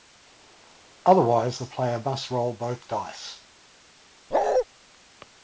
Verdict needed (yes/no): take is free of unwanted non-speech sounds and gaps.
no